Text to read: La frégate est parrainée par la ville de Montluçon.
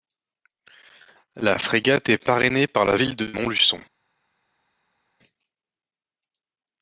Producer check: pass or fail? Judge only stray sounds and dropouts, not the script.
pass